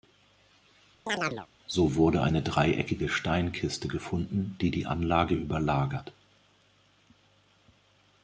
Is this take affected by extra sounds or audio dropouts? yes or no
yes